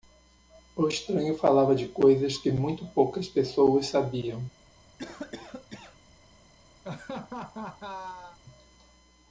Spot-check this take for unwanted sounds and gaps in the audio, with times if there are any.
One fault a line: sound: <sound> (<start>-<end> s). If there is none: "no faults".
sound: cough (5.0-6.0 s)
sound: laugh (6.8-8.4 s)